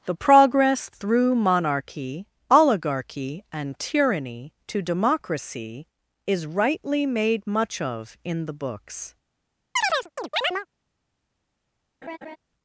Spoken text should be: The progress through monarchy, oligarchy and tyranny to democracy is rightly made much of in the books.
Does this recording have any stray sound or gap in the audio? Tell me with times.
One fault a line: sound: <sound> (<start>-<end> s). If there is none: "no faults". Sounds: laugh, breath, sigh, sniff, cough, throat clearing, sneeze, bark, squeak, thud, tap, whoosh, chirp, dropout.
sound: chirp (9.8-10.7 s)
sound: laugh (12.0-12.4 s)